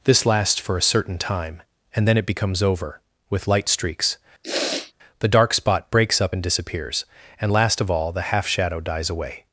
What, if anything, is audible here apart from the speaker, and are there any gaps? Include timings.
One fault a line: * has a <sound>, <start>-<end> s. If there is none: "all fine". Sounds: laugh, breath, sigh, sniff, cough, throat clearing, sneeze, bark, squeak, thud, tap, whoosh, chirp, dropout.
* has a sniff, 4.4-4.9 s